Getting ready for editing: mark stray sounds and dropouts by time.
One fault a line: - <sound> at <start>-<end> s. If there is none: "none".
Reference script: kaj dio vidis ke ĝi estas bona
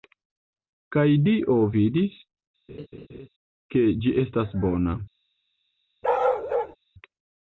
- laugh at 2.7-3.3 s
- bark at 6.0-6.8 s